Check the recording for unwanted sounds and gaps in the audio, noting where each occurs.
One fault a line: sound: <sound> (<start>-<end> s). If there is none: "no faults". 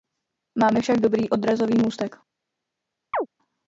sound: chirp (3.1-3.3 s)